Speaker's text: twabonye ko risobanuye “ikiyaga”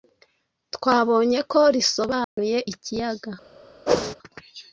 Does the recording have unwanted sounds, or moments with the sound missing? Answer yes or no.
yes